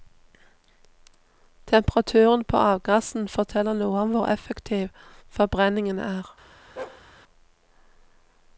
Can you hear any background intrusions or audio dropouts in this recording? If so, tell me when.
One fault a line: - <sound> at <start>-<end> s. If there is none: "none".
- bark at 6.8-7.0 s